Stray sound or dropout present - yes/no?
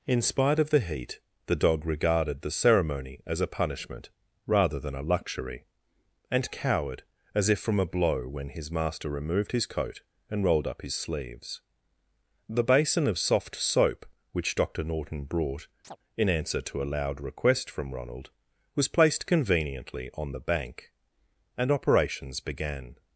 yes